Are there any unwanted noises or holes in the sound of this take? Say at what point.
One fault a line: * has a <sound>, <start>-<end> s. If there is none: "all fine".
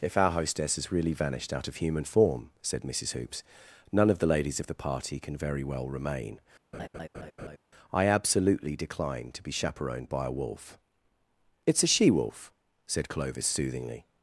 * has a laugh, 6.7-7.6 s